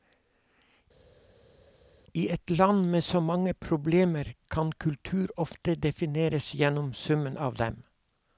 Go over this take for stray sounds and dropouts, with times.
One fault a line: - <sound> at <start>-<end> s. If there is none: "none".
none